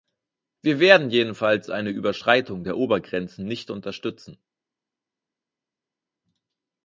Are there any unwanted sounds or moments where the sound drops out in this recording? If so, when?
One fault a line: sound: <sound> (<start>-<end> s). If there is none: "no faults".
no faults